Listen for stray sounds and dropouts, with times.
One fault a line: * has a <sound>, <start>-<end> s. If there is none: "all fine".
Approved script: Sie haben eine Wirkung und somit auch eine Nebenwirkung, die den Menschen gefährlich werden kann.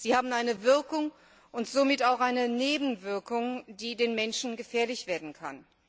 all fine